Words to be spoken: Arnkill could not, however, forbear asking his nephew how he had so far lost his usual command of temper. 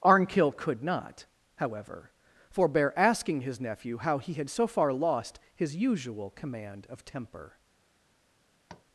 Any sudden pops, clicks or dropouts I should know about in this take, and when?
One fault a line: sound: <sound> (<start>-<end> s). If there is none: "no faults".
sound: tap (8.7-8.9 s)